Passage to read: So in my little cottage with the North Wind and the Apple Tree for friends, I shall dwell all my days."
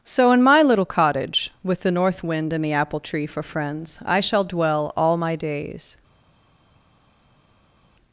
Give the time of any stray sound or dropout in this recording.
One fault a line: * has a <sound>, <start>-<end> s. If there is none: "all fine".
all fine